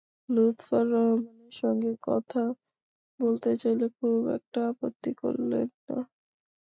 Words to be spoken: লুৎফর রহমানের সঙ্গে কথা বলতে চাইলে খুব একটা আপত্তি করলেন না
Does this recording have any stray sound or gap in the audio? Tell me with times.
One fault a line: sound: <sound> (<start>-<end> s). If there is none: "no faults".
no faults